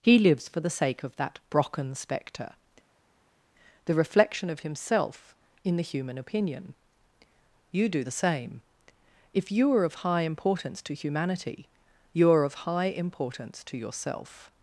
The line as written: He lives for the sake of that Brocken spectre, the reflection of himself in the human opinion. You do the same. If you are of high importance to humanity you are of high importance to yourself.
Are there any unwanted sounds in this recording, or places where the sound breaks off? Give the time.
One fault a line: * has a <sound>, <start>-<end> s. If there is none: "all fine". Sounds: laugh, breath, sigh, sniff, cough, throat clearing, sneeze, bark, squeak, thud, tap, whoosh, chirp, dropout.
all fine